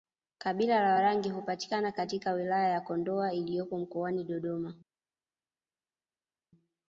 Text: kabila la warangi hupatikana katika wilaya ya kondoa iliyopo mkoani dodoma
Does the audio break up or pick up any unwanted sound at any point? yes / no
no